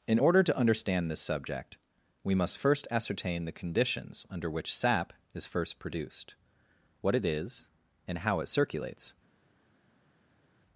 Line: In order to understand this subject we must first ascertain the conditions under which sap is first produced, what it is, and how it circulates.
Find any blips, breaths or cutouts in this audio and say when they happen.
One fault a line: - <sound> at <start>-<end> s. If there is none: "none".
none